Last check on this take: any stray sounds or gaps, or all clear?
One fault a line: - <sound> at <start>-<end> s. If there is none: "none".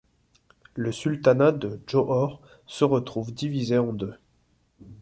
none